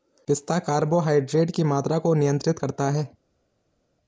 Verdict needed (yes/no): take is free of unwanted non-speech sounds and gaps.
yes